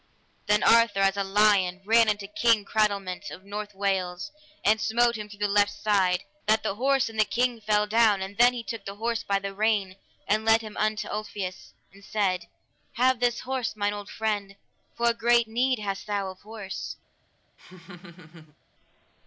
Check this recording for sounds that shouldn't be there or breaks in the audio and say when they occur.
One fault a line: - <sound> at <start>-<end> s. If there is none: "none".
- laugh at 17.6-18.6 s